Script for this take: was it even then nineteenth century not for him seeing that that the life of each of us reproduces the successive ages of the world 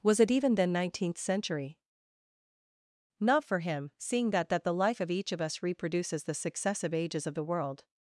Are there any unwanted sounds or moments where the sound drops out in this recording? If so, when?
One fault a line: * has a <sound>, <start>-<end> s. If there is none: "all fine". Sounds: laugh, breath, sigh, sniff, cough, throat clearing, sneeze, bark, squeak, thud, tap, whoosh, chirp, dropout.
all fine